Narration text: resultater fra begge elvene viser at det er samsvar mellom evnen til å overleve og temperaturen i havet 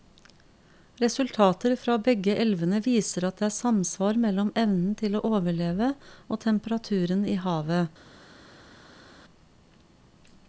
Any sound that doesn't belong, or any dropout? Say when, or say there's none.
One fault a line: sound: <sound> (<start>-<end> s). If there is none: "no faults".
no faults